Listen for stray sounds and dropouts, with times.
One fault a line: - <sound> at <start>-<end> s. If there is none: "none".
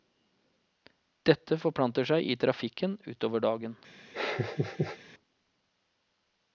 - laugh at 4.1-5.0 s